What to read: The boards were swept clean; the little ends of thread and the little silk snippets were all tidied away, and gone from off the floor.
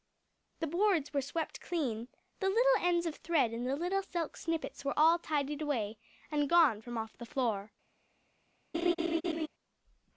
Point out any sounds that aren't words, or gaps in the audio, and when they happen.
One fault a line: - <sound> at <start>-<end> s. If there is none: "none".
- laugh at 8.7-9.5 s